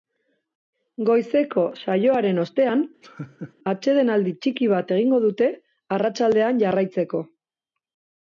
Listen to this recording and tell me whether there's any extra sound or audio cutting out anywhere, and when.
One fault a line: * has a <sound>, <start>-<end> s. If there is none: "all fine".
* has a laugh, 3.0-3.5 s